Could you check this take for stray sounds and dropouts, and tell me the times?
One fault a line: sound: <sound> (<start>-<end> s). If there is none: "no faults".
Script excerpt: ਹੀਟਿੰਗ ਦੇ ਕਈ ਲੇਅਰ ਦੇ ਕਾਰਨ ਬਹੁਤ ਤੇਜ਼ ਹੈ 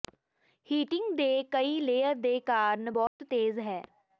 sound: dropout (3.1-3.2 s)